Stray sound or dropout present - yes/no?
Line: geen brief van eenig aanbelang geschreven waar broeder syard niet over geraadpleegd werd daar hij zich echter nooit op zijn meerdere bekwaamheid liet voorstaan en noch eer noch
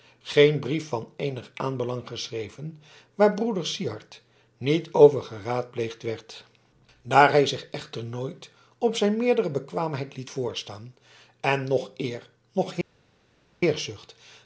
no